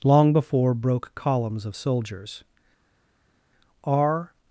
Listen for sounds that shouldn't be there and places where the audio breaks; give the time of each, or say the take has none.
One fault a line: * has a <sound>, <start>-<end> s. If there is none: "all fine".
all fine